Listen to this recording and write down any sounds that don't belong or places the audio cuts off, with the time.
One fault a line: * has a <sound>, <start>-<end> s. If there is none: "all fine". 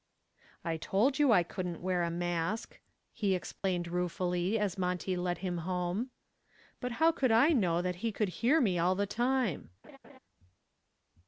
* has a dropout, 3.6-3.6 s
* has a laugh, 9.8-10.2 s